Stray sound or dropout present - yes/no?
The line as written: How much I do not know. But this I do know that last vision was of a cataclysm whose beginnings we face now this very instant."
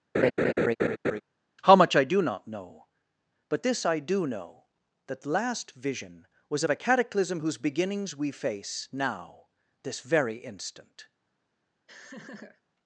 yes